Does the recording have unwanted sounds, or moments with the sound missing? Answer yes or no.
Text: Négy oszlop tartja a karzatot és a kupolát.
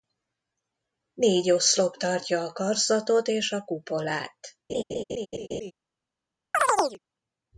yes